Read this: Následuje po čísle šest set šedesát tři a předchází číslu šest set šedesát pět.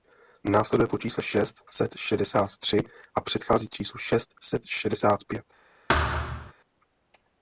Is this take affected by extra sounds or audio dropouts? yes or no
yes